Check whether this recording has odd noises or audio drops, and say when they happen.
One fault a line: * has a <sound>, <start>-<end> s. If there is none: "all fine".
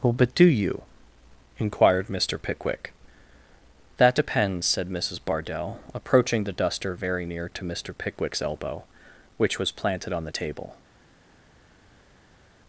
all fine